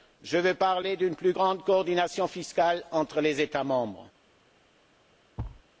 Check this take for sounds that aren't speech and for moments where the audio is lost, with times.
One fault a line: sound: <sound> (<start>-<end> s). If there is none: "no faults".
sound: thud (5.4-5.6 s)